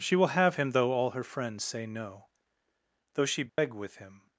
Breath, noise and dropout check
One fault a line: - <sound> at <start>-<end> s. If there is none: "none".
- dropout at 3.5-3.6 s